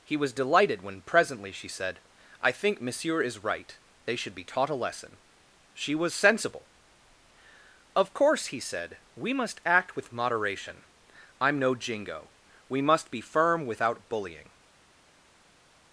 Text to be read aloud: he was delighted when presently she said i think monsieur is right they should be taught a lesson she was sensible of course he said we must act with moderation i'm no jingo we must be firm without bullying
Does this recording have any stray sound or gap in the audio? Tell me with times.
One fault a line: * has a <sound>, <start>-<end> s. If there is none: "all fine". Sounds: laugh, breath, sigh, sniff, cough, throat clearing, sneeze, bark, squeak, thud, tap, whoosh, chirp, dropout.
all fine